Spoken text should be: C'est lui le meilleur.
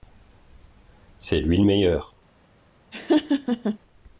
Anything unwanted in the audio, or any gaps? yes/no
yes